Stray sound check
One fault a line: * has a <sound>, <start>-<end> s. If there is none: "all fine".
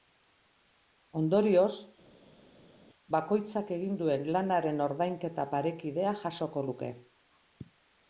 all fine